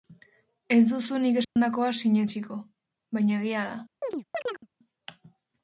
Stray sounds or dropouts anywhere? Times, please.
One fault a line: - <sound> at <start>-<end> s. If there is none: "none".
- dropout at 1.4-1.6 s
- chirp at 4.0-4.7 s